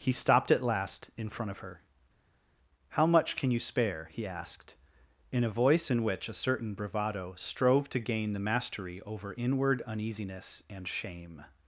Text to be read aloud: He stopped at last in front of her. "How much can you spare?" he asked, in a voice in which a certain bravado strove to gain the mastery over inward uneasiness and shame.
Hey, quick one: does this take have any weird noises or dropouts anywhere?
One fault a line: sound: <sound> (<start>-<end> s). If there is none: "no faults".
no faults